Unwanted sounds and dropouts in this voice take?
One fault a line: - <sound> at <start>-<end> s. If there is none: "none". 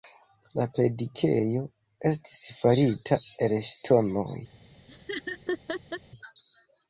- laugh at 4.9-6.0 s